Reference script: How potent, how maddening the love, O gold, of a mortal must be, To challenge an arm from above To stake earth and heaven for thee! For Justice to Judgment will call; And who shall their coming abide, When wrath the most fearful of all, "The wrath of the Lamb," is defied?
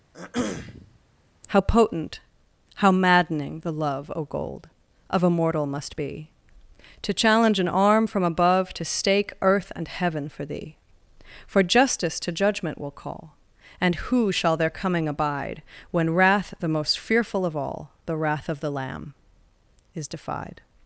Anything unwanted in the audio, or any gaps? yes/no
yes